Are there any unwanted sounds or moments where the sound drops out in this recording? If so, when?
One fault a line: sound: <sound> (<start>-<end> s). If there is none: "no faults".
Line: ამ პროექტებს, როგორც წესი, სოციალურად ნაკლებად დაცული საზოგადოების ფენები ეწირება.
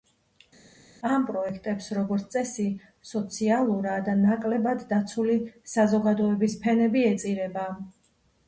no faults